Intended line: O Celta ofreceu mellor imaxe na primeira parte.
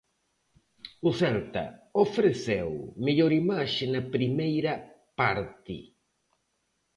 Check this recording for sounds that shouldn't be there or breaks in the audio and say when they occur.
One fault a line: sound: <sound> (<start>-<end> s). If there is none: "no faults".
no faults